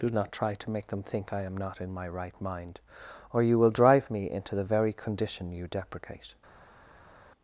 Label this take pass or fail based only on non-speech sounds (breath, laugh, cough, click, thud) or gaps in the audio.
pass